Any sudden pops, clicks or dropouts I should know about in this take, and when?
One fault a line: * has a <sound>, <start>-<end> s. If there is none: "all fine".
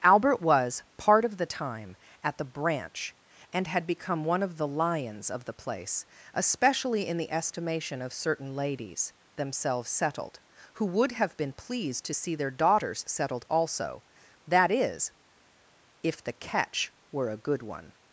all fine